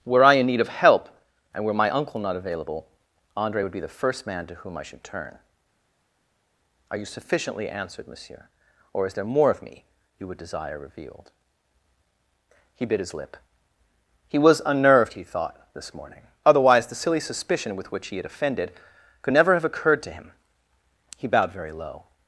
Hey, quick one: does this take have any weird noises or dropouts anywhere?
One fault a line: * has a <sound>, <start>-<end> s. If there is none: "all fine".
all fine